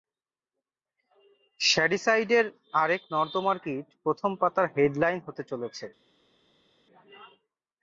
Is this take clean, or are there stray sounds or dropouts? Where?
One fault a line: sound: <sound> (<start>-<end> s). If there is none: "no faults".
no faults